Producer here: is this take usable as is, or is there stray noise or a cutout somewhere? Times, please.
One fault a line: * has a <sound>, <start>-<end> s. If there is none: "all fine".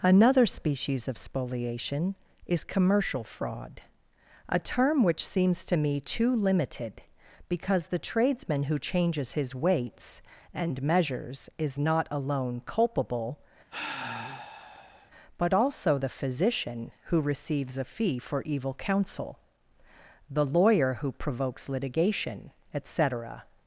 * has a sigh, 13.7-15.1 s